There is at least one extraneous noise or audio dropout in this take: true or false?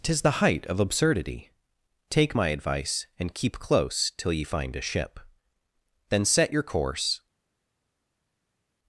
false